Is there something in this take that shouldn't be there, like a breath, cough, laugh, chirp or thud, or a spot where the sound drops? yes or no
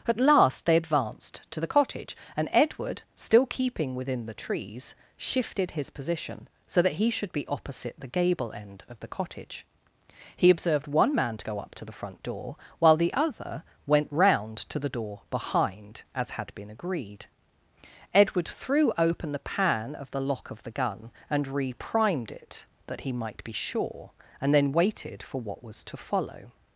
no